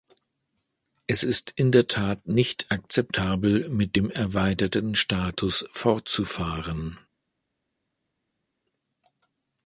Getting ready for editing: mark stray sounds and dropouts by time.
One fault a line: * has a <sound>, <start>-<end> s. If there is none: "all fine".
all fine